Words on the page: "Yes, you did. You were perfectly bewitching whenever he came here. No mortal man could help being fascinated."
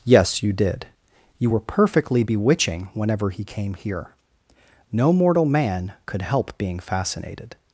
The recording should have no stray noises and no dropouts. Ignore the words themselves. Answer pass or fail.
pass